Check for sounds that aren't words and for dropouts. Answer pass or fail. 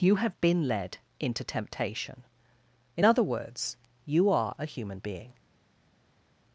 pass